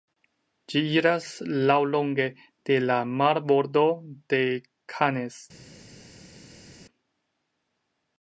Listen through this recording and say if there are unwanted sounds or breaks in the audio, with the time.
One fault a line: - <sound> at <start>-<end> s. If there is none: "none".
none